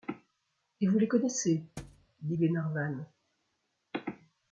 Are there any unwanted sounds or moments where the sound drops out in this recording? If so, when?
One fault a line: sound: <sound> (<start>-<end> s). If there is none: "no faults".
sound: thud (1.8-2.1 s)